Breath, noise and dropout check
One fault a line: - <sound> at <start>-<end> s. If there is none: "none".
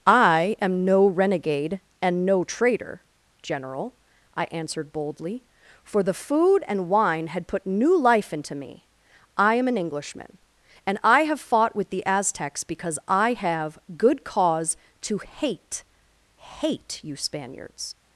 none